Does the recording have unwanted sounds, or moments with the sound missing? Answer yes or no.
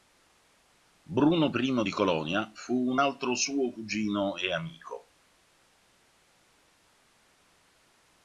no